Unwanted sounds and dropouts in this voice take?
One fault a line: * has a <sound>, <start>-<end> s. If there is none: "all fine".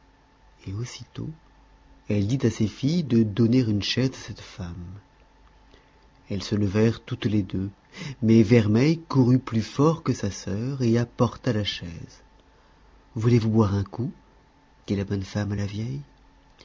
all fine